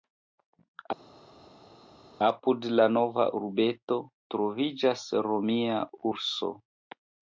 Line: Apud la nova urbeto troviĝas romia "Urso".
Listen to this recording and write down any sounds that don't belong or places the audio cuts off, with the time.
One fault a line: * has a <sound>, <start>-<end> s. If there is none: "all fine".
all fine